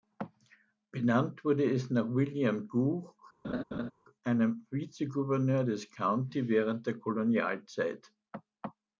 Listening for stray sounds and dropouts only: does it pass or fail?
fail